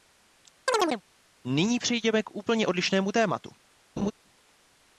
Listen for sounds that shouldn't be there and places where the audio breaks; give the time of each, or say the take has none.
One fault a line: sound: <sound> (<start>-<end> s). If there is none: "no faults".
sound: chirp (0.7-1.0 s)
sound: laugh (4.0-4.1 s)